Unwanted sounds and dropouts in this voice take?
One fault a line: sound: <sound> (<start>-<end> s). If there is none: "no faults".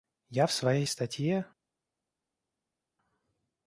no faults